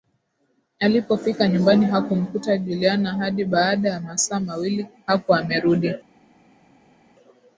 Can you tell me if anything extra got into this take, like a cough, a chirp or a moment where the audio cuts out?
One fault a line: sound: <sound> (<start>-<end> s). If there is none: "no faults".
no faults